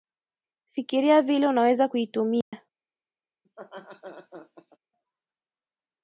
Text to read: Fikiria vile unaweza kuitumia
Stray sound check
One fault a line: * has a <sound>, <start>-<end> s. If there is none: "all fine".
* has a dropout, 2.4-2.5 s
* has a laugh, 3.4-4.8 s